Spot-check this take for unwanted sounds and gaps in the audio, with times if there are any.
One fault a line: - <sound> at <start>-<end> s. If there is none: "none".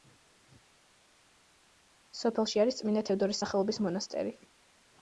none